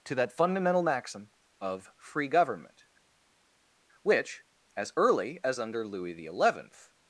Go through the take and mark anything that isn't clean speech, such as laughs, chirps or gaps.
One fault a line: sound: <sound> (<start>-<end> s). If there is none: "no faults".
no faults